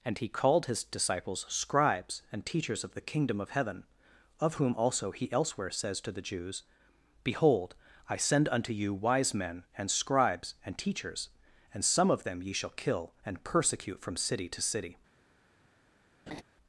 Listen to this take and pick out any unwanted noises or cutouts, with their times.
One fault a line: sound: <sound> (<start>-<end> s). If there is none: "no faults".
sound: laugh (16.3-16.4 s)